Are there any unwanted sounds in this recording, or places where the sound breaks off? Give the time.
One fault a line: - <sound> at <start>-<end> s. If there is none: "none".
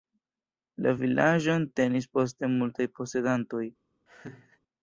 - laugh at 4.1-4.6 s